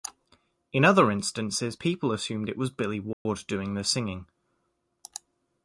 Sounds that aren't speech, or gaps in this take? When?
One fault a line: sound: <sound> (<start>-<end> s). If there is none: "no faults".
sound: dropout (3.1-3.3 s)